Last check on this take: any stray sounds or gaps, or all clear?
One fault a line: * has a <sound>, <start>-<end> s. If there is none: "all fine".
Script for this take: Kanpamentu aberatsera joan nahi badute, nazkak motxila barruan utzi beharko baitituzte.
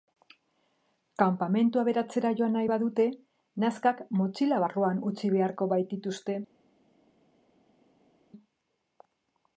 all fine